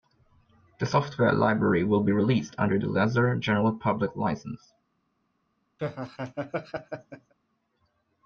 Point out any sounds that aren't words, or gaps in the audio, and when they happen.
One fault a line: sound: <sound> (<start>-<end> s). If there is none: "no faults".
sound: laugh (5.8-7.3 s)